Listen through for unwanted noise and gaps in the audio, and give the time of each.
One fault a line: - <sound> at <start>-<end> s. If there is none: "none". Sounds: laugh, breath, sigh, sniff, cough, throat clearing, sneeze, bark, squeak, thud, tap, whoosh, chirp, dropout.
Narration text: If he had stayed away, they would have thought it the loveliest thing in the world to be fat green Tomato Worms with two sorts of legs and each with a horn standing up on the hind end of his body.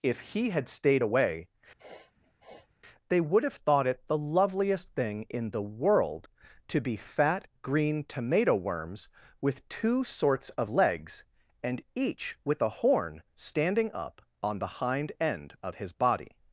- sniff at 1.8-2.7 s